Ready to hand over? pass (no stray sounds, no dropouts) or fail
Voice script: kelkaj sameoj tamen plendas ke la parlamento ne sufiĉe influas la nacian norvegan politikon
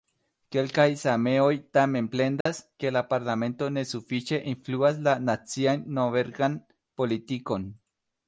fail